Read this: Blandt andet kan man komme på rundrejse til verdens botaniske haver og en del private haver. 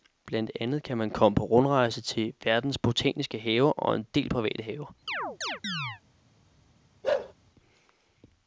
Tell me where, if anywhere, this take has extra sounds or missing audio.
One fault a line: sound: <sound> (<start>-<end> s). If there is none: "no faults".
sound: chirp (5.1-6.0 s)
sound: bark (7.0-7.3 s)